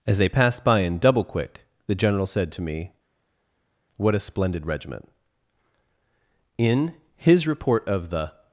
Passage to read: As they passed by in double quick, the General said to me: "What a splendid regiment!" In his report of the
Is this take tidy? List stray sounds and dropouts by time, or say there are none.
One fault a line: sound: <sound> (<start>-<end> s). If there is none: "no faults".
no faults